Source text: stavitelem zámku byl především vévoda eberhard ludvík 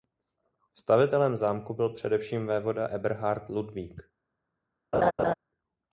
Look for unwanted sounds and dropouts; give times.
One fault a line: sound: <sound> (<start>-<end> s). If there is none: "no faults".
sound: laugh (4.9-5.3 s)